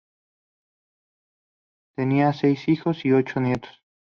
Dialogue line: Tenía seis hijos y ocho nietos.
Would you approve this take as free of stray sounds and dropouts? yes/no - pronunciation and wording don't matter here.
yes